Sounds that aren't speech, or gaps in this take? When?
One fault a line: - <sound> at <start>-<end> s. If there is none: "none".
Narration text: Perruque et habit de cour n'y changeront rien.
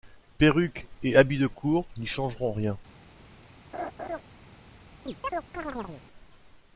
- laugh at 3.7-4.2 s
- chirp at 5.1-6.0 s